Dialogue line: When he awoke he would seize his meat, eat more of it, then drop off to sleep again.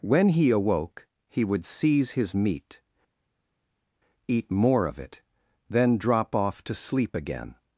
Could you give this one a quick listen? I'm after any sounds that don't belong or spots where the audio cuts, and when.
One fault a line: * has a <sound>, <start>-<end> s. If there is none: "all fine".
all fine